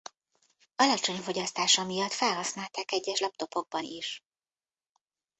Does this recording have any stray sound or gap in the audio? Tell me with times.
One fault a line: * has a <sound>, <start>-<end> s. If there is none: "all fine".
all fine